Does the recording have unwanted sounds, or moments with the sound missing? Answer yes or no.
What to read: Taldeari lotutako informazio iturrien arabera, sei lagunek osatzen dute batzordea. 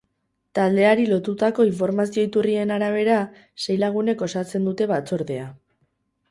no